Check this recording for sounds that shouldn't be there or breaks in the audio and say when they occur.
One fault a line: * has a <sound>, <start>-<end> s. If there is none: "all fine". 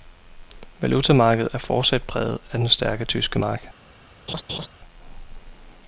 * has a laugh, 4.3-4.7 s